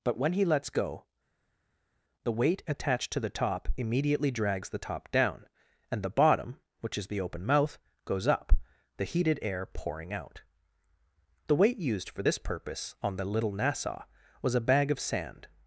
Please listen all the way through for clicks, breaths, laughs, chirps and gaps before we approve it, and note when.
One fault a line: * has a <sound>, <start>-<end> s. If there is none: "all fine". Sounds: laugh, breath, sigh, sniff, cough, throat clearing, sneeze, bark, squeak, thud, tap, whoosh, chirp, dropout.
all fine